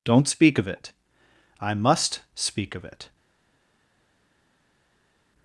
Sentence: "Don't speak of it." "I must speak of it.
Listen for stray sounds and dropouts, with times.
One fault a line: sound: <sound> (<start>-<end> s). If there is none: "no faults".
no faults